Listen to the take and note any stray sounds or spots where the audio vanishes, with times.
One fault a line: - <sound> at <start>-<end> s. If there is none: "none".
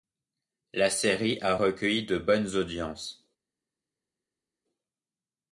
none